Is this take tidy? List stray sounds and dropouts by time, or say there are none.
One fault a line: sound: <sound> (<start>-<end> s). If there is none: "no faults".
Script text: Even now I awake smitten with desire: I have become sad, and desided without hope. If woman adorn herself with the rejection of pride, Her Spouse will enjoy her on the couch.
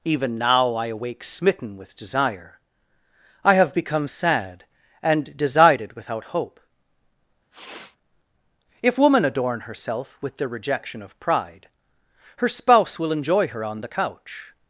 sound: sniff (7.5-8.0 s)